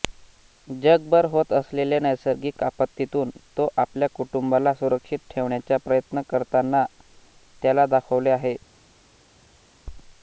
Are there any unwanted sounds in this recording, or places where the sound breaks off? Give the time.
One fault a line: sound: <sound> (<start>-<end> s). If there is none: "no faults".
no faults